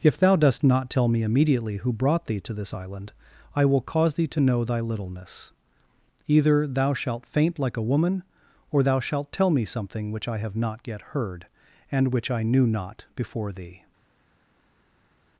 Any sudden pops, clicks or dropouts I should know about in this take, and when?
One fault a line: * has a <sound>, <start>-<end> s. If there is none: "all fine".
all fine